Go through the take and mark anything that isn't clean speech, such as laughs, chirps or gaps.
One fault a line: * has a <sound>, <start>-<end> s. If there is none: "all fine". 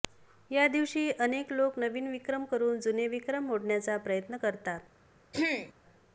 * has a throat clearing, 5.3-5.7 s